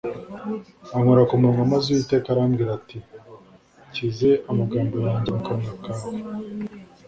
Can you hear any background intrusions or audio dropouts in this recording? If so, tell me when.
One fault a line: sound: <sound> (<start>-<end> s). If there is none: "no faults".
no faults